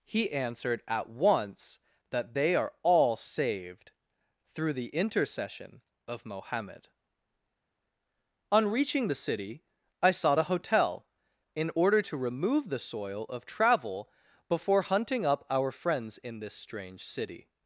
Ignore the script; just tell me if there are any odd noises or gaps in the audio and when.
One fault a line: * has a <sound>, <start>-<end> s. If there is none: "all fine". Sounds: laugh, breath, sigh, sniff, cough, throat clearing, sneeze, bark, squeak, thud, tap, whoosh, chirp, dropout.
all fine